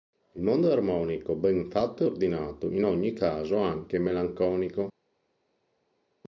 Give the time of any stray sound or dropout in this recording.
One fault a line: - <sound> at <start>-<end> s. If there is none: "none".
none